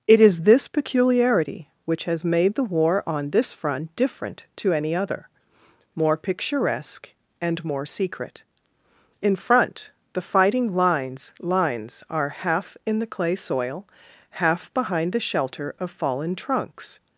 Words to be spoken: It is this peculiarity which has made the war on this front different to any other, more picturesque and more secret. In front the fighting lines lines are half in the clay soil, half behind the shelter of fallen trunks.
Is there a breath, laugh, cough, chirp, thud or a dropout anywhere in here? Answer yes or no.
no